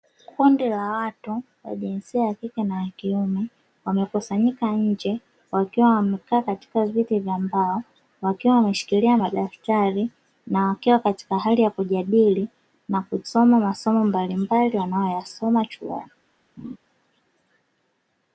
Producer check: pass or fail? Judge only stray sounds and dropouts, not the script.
fail